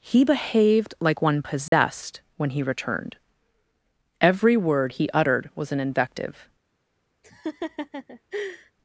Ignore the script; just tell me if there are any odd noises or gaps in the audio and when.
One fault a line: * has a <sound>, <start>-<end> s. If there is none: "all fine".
* has a dropout, 1.7-1.7 s
* has a laugh, 7.2-8.7 s